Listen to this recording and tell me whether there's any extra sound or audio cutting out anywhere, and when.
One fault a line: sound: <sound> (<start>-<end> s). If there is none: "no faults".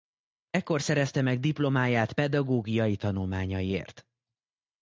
no faults